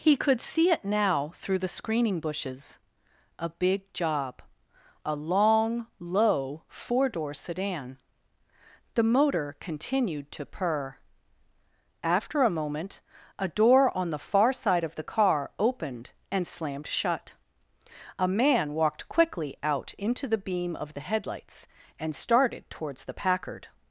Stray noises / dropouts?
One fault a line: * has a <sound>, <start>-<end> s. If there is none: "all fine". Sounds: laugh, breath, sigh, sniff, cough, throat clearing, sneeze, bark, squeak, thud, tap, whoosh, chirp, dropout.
all fine